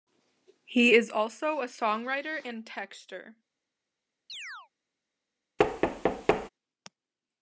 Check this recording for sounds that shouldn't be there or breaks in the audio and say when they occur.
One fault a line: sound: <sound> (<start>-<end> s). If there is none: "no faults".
sound: chirp (4.3-4.7 s)
sound: thud (5.6-6.5 s)